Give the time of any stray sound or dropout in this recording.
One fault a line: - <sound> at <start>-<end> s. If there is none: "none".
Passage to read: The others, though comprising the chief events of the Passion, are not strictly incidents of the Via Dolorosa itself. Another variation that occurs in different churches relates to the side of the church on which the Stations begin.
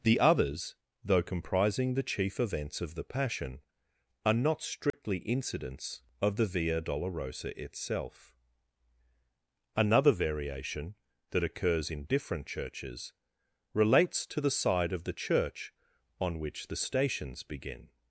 - dropout at 4.9-4.9 s